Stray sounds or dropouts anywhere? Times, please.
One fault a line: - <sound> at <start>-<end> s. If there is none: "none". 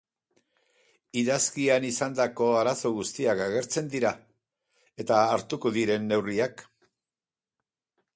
none